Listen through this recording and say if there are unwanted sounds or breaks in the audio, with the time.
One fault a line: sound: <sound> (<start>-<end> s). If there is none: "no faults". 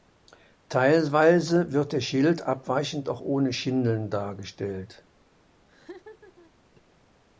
sound: laugh (5.7-6.5 s)